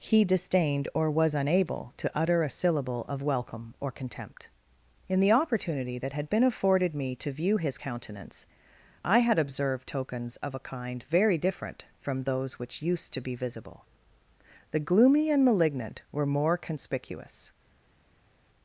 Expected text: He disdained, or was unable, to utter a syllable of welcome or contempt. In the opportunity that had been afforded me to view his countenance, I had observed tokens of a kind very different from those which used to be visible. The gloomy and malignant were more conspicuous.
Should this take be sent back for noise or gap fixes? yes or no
no